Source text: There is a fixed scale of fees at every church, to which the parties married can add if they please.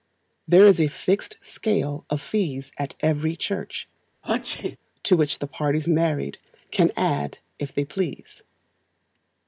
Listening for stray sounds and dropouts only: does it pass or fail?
fail